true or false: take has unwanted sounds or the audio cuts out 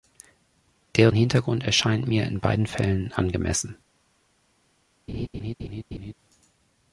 true